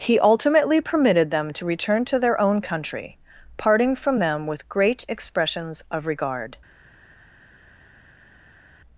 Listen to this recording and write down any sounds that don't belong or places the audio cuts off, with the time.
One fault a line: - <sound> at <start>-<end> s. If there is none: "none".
none